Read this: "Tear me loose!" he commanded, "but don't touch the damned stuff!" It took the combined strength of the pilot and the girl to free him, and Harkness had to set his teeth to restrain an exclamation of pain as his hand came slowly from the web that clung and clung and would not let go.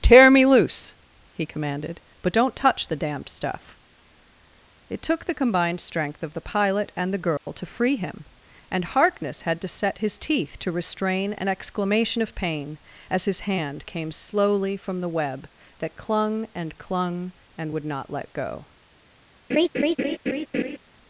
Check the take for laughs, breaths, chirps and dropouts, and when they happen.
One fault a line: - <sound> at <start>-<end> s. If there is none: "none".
- dropout at 7.4-7.5 s
- laugh at 19.5-20.8 s